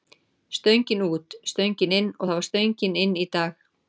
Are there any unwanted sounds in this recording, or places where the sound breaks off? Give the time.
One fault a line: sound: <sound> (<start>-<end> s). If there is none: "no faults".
no faults